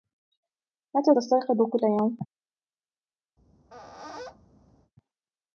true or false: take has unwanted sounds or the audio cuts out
true